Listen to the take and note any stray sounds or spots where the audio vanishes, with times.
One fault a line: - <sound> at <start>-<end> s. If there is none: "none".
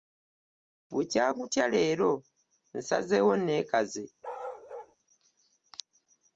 - bark at 4.2-5.0 s